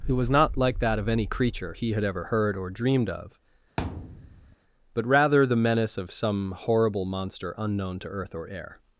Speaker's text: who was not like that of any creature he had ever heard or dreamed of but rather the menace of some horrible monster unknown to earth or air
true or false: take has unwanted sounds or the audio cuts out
true